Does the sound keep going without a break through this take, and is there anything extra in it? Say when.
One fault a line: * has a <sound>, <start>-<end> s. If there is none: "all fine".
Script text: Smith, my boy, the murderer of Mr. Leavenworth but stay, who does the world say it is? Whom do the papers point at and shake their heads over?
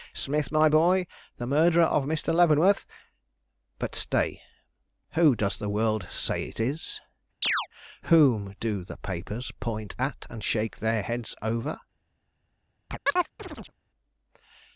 * has a chirp, 7.4-7.7 s
* has a chirp, 12.9-13.7 s